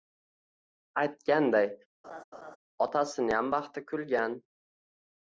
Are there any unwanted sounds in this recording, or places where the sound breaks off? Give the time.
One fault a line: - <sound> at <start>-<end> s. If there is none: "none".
- laugh at 2.0-2.6 s